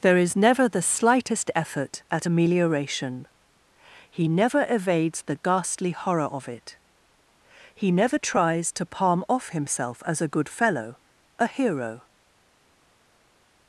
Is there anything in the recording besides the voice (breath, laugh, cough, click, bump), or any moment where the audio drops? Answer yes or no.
no